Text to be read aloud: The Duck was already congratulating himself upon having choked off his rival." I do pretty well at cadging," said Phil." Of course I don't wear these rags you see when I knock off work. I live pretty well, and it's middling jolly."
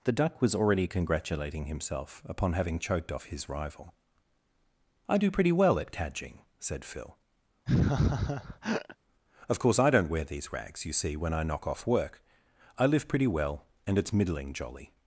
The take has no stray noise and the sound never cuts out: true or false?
false